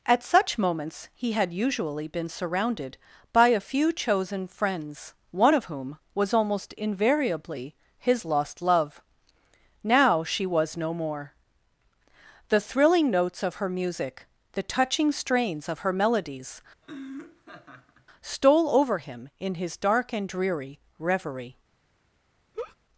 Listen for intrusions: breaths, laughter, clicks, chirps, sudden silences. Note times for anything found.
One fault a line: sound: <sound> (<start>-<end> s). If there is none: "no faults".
sound: laugh (16.8-18.1 s)
sound: laugh (22.5-22.8 s)